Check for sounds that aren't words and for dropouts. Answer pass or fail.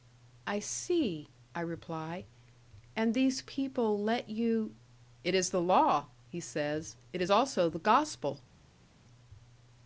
pass